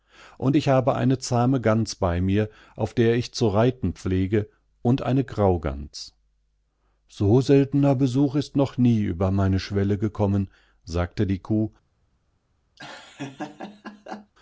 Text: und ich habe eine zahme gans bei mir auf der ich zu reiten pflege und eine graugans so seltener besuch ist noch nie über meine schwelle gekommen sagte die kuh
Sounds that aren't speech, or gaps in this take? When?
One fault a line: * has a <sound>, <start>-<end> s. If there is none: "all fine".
* has a laugh, 12.8-14.3 s